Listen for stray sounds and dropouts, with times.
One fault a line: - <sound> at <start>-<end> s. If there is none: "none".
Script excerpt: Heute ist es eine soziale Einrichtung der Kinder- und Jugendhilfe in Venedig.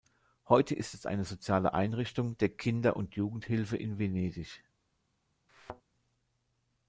- thud at 5.5-5.8 s